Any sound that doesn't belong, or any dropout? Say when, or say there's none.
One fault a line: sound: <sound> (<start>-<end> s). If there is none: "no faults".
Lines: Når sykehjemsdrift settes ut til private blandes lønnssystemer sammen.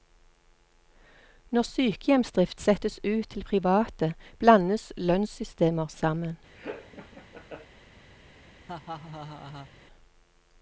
sound: laugh (6.6-7.7 s)
sound: laugh (8.7-9.7 s)